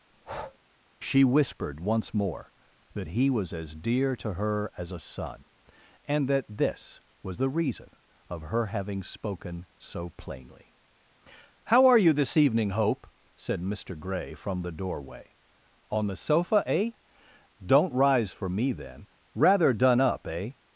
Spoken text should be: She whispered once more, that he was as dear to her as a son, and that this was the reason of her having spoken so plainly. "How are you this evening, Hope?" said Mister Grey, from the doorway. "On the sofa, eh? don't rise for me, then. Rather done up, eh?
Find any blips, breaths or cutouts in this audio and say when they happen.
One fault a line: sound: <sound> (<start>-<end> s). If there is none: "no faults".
sound: breath (0.1-0.6 s)